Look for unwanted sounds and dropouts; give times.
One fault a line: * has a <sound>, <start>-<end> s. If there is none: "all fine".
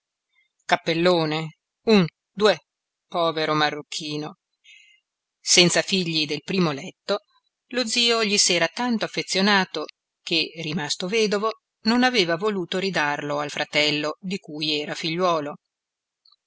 all fine